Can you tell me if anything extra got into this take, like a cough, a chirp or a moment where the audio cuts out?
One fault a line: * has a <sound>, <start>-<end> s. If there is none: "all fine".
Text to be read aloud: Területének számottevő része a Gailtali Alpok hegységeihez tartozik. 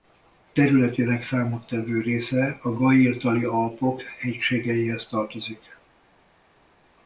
all fine